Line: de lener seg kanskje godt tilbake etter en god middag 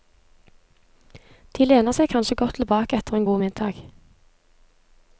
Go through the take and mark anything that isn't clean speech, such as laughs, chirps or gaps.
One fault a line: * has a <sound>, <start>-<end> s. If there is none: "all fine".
all fine